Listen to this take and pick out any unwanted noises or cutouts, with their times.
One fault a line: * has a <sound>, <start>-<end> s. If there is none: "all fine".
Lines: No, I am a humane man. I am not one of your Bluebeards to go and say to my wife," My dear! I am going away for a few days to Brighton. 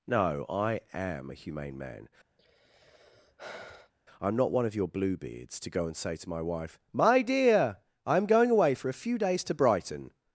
* has a sigh, 2.4-3.9 s